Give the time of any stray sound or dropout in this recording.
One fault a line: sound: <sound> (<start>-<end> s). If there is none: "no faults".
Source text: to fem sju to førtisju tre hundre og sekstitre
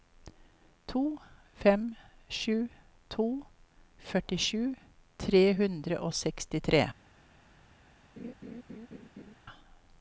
sound: laugh (8.2-9.3 s)